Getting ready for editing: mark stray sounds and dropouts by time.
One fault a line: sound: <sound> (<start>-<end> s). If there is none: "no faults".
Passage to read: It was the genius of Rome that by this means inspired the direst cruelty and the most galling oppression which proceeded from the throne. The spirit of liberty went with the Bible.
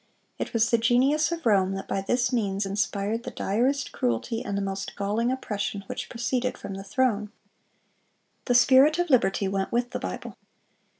no faults